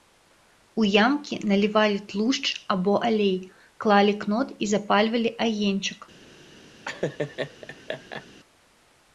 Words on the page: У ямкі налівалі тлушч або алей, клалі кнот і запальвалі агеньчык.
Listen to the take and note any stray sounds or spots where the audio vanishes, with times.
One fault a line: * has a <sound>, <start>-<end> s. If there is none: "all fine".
* has a laugh, 6.8-8.3 s